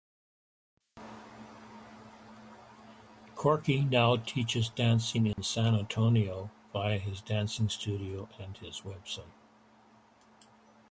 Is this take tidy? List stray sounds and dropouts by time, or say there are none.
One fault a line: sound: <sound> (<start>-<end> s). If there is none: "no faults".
sound: dropout (5.3-5.4 s)